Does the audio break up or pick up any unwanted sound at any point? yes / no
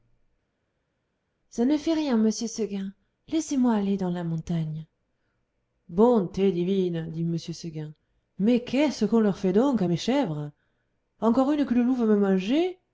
no